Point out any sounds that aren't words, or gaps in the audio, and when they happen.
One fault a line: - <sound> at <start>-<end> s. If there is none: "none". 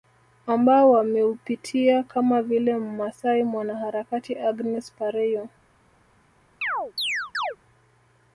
- chirp at 6.6-7.6 s